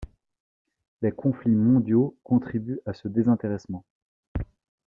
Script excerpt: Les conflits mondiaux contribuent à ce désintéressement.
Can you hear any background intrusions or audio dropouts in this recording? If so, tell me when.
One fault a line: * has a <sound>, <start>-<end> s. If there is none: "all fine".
all fine